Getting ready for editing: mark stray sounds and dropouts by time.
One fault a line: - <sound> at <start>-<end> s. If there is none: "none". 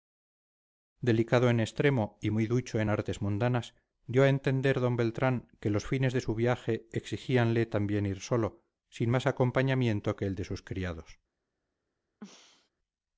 - throat clearing at 12.2-12.7 s